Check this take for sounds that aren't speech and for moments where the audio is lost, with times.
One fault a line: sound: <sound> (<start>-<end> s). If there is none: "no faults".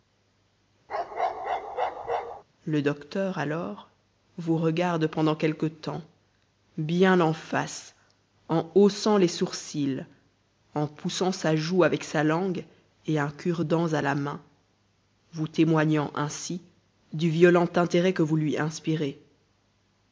sound: bark (0.9-2.4 s)